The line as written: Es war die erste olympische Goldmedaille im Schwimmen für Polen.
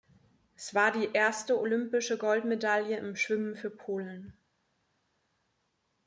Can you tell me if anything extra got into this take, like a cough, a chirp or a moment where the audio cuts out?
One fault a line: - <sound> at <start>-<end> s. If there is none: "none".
none